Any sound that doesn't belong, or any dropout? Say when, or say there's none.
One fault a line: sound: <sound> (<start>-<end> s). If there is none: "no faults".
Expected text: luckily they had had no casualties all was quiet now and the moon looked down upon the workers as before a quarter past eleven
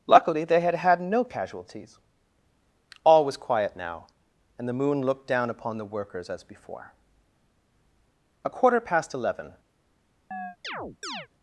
sound: chirp (10.3-11.3 s)